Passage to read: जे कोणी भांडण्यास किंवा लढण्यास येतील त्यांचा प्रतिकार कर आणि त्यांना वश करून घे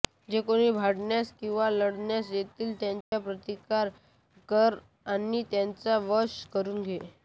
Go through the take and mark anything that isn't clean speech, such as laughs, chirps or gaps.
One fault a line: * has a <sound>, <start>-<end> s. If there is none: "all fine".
* has a dropout, 3.0-3.1 s